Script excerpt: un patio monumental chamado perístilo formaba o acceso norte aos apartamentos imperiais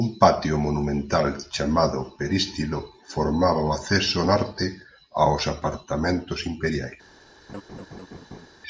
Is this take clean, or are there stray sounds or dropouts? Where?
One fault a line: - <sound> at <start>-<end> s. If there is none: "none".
- laugh at 7.5-8.5 s